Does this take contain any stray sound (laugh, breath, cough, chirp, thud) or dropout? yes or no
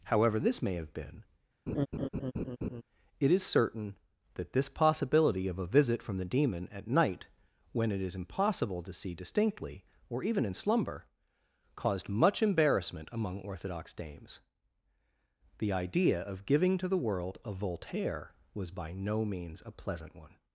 yes